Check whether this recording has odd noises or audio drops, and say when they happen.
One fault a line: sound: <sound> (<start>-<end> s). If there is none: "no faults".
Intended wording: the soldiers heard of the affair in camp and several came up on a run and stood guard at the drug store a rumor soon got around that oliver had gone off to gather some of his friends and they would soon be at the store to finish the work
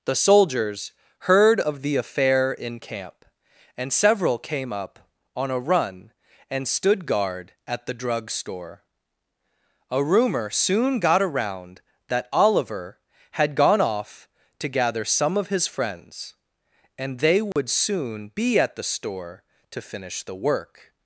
sound: dropout (17.5-17.6 s)